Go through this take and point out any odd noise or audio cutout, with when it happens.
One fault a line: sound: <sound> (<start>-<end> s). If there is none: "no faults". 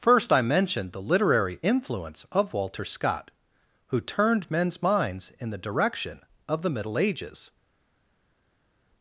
no faults